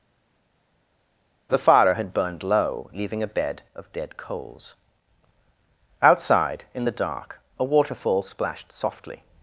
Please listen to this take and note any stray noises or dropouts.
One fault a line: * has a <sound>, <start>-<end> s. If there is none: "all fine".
all fine